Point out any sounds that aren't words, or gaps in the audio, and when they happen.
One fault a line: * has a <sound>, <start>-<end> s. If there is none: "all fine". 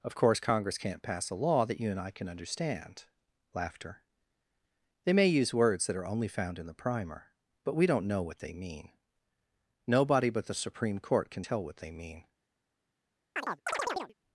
* has a chirp, 13.4-14.1 s